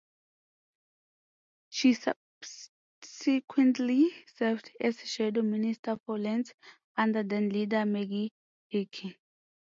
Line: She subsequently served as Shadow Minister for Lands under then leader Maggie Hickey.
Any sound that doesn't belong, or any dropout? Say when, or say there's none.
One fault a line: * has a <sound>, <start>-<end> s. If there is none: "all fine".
all fine